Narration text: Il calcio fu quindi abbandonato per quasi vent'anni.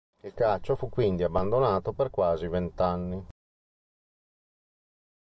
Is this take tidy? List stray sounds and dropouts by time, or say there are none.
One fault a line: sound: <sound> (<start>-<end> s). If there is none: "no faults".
no faults